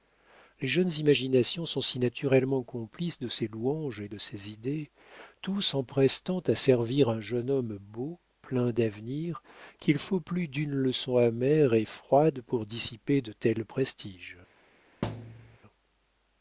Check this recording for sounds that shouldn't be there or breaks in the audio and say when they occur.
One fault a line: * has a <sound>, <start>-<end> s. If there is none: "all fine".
* has a thud, 15.0-15.6 s